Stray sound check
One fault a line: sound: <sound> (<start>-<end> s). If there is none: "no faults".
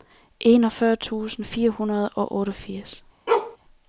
sound: bark (3.3-3.6 s)